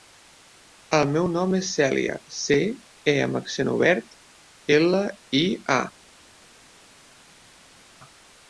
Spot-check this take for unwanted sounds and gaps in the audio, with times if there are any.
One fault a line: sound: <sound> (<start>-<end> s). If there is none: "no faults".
no faults